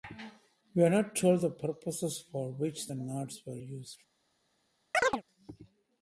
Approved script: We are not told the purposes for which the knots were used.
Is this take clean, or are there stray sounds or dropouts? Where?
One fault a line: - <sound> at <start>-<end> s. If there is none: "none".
- chirp at 4.9-5.2 s